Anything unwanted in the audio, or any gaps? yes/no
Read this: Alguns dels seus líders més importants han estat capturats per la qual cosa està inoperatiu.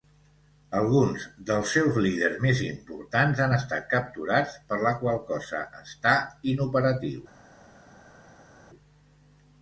no